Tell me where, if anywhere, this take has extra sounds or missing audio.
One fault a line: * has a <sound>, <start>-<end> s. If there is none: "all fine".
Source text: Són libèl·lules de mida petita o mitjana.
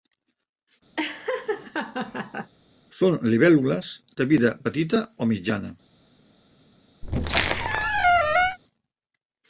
* has a laugh, 1.0-2.5 s
* has a squeak, 7.0-8.6 s